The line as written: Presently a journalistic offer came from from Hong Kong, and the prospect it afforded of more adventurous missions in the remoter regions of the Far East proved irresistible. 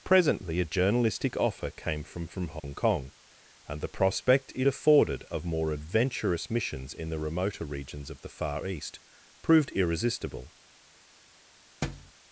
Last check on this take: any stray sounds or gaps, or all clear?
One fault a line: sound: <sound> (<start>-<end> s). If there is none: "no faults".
sound: dropout (2.6-2.6 s)
sound: thud (11.8-12.1 s)